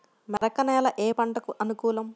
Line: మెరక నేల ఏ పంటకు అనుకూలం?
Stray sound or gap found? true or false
true